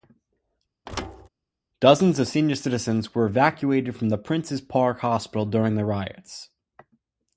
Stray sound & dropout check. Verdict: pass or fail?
fail